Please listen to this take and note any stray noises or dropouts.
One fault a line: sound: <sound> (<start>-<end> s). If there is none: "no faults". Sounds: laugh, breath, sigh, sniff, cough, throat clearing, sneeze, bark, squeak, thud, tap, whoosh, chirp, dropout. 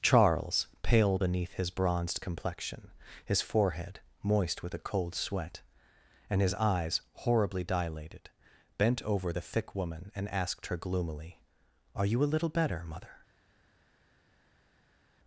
no faults